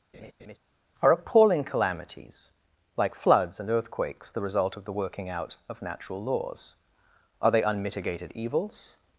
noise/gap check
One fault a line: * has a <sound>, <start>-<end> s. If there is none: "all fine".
* has a laugh, 0.1-0.6 s